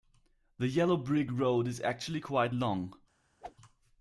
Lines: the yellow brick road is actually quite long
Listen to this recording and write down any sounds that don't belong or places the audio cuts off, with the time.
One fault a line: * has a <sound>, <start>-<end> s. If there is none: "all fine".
* has a whoosh, 3.4-3.6 s